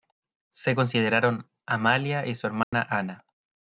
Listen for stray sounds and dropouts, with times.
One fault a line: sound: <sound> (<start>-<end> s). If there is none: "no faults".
sound: dropout (2.6-2.7 s)